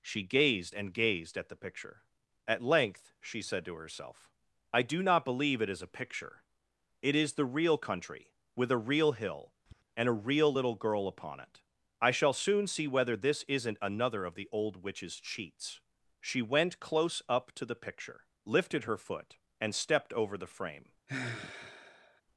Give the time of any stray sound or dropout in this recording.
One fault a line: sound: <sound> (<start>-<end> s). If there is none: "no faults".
sound: tap (9.7-9.8 s)
sound: sigh (21.1-22.2 s)